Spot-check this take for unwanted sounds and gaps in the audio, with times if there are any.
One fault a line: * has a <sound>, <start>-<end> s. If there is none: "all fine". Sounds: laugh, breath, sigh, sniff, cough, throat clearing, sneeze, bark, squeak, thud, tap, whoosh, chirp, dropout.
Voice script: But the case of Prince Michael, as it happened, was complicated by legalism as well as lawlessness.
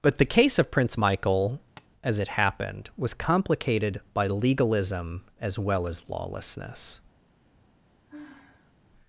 * has a tap, 1.8-1.9 s
* has a sigh, 8.1-8.7 s